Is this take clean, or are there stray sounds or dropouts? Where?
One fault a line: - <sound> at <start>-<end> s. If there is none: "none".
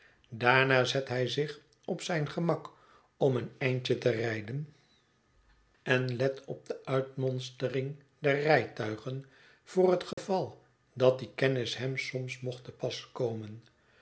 - dropout at 10.1-10.2 s